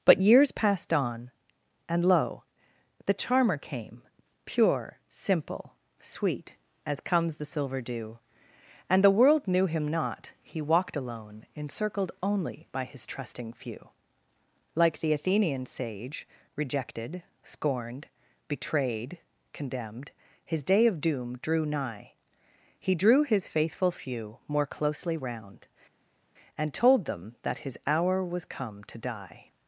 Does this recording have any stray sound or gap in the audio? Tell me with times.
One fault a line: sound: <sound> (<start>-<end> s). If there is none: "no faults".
no faults